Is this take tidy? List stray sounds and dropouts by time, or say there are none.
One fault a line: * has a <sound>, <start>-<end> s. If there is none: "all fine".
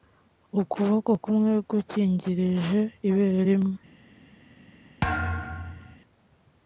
* has a thud, 5.0-6.0 s